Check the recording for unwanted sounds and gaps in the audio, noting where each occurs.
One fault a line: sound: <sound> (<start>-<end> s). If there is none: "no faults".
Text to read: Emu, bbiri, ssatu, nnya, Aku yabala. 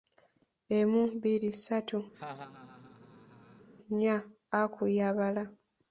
sound: laugh (2.1-3.7 s)